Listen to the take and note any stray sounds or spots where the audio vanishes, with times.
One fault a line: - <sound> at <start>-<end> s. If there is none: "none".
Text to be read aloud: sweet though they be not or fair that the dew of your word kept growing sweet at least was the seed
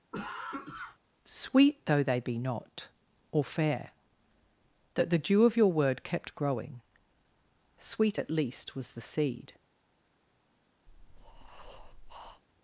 - cough at 0.1-1.0 s
- breath at 10.9-12.4 s